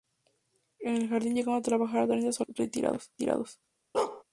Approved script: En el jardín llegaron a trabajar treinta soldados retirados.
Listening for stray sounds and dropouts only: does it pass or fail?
fail